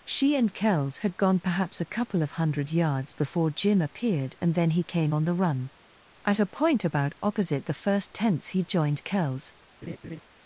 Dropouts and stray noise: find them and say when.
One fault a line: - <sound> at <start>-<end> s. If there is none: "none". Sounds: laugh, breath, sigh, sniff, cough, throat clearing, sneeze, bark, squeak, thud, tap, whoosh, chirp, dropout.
- laugh at 9.8-10.2 s